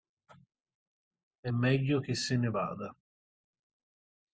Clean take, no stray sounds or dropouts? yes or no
yes